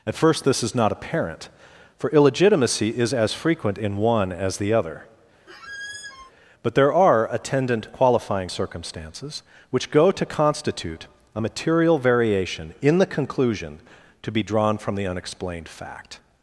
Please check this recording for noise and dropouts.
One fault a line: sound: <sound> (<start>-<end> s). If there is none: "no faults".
sound: squeak (5.5-6.3 s)